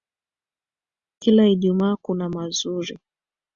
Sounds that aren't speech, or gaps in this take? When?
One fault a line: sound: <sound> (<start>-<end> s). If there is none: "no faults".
no faults